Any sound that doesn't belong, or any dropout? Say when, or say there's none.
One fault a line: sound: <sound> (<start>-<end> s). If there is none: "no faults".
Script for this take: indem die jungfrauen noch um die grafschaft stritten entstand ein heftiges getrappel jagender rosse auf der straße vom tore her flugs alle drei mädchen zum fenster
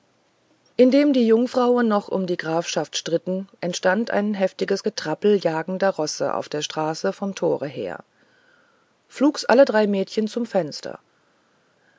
no faults